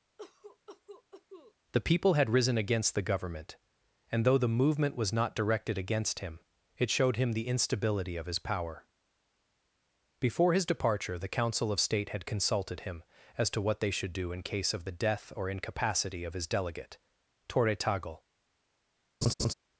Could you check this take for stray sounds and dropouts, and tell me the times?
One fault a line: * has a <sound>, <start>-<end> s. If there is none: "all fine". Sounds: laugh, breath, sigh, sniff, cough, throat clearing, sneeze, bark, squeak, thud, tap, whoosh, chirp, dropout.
* has a cough, 0.2-1.5 s
* has a laugh, 19.2-19.5 s